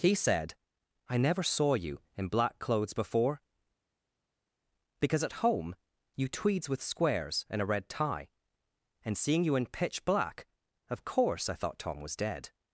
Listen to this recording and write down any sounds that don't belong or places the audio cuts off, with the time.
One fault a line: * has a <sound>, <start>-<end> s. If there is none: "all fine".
all fine